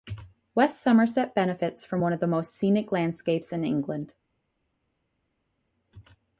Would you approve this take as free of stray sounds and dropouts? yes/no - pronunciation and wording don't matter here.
yes